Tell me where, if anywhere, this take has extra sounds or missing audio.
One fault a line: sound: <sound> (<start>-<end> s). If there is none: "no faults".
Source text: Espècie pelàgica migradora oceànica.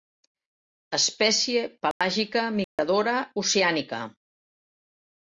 sound: dropout (1.9-2.0 s)
sound: dropout (2.6-2.8 s)